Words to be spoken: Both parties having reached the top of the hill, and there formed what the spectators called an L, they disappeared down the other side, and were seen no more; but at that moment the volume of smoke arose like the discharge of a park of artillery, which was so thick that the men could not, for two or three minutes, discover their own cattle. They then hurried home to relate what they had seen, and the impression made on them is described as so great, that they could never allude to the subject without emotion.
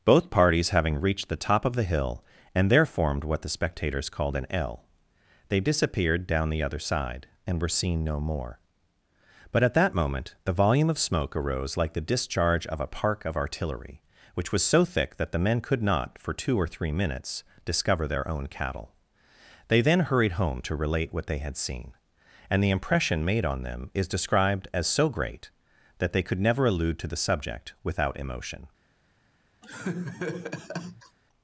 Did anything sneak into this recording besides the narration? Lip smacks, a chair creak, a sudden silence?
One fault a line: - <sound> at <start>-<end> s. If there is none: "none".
- laugh at 29.6-31.2 s